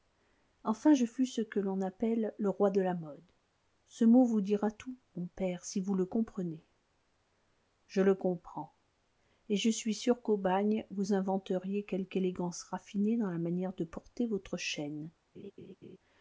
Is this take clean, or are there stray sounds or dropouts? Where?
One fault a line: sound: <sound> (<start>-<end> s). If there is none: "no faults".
sound: laugh (15.3-16.0 s)